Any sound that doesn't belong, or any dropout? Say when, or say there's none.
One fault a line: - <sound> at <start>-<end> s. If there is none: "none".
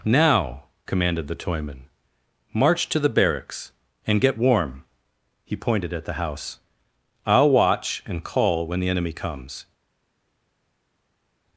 none